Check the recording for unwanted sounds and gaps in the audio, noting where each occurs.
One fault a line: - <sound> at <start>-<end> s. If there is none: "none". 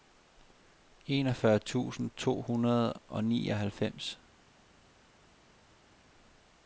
none